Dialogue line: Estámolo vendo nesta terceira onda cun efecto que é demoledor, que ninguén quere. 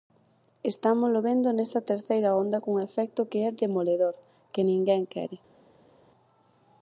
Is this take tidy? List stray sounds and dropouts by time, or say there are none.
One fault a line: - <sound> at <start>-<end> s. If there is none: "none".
none